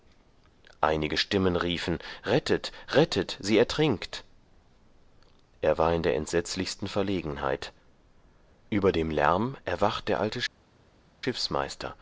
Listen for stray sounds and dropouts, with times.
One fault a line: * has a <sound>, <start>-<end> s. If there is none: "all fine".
all fine